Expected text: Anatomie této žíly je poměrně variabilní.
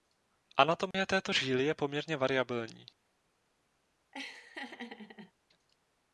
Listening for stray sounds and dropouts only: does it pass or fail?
fail